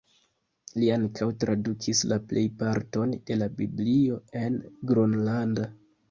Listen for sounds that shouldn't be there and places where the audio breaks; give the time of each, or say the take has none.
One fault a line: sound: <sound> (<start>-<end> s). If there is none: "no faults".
no faults